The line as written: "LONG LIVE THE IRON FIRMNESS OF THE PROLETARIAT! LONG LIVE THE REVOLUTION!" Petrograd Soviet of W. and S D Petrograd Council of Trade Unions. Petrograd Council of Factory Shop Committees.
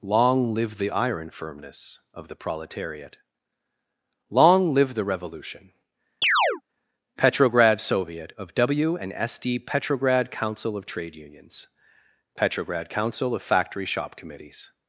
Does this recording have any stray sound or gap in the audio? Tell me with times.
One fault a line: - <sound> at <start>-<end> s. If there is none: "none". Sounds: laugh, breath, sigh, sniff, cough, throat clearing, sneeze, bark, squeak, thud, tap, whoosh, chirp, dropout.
- chirp at 6.2-6.6 s